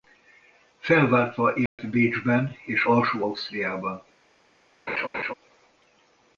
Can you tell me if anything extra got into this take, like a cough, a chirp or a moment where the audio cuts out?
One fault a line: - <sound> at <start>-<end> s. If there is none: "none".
- dropout at 1.7-1.8 s
- laugh at 4.9-5.3 s